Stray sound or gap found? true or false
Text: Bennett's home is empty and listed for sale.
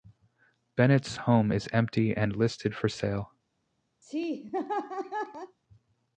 true